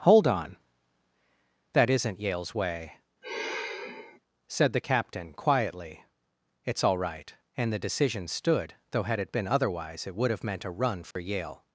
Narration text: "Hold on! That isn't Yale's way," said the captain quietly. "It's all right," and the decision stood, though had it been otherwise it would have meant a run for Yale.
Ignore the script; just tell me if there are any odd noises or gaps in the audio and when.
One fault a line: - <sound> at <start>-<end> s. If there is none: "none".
- sigh at 3.2-4.2 s
- dropout at 11.1-11.2 s